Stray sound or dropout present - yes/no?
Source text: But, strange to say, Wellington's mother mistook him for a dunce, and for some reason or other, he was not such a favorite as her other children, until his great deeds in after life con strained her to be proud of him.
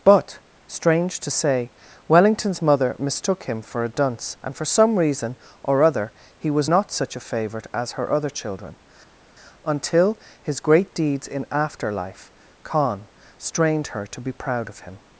no